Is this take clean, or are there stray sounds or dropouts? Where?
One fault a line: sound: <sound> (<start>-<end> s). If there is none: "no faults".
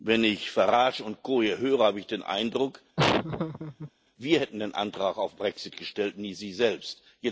sound: laugh (3.0-3.9 s)